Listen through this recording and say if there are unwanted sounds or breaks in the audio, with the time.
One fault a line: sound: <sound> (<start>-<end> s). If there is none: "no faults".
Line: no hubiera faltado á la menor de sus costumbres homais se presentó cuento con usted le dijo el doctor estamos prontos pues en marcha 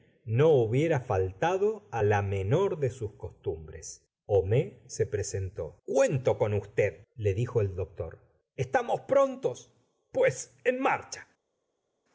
no faults